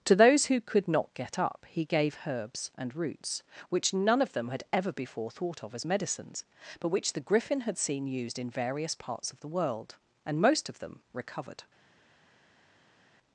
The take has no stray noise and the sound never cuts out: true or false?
true